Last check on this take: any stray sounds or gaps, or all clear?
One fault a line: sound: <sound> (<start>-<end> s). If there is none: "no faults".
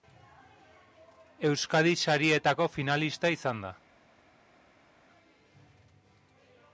no faults